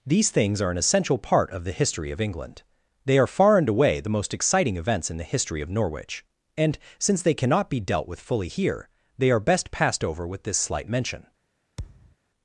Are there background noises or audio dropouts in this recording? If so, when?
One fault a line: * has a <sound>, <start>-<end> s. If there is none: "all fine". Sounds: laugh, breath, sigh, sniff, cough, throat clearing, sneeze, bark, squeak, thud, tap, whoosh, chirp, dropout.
* has a thud, 11.8-12.2 s